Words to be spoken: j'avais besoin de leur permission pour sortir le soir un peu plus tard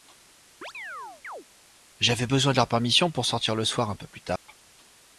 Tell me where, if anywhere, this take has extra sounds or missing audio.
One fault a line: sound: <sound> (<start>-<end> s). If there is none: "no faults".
sound: chirp (0.6-1.5 s)
sound: dropout (4.4-4.5 s)